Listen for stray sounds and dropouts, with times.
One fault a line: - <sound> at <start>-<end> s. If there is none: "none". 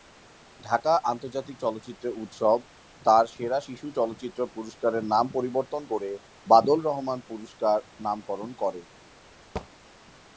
- thud at 9.6-9.7 s